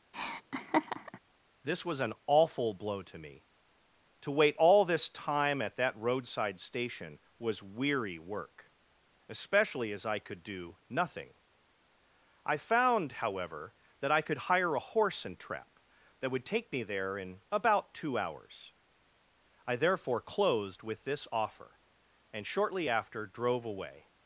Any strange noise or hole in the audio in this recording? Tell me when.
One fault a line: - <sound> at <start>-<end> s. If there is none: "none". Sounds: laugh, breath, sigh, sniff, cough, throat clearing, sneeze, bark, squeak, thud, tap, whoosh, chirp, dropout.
- laugh at 0.1-1.2 s